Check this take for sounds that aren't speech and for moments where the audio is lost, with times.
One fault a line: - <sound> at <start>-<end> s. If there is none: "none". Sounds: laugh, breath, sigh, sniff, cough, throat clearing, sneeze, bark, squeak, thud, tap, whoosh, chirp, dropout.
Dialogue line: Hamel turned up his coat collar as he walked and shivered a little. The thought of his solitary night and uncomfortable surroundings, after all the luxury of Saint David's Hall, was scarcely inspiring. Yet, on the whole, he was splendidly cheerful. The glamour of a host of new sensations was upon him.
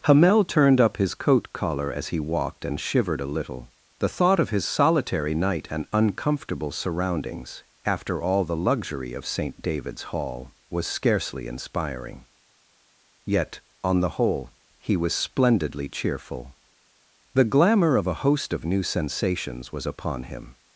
none